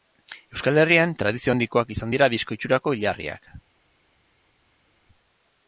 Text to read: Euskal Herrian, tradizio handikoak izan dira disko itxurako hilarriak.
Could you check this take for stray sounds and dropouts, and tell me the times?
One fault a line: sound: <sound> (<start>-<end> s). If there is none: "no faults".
no faults